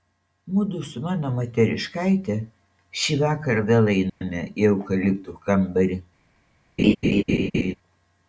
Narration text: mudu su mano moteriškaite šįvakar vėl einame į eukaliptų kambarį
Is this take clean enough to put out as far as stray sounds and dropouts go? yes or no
no